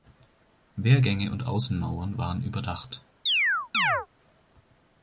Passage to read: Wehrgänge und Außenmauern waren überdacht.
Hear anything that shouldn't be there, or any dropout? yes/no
yes